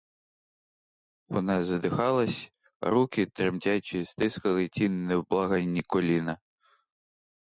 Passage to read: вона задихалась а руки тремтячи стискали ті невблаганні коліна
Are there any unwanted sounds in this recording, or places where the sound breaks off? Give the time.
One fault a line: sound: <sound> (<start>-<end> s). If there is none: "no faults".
no faults